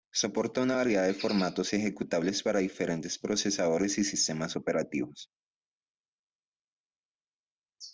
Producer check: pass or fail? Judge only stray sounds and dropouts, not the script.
pass